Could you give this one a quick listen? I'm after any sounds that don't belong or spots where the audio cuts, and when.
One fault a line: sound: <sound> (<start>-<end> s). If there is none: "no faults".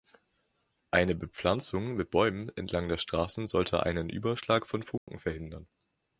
sound: dropout (5.0-5.1 s)